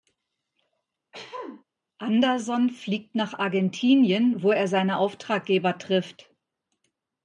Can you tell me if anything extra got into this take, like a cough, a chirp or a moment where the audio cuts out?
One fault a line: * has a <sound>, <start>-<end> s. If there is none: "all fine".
* has a throat clearing, 1.1-1.6 s